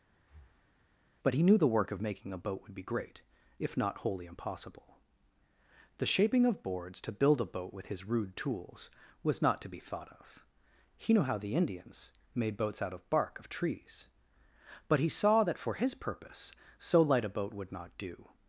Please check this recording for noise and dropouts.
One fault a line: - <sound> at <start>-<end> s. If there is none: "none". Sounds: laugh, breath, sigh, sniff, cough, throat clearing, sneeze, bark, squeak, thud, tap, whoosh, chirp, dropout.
- breath at 0.2-0.9 s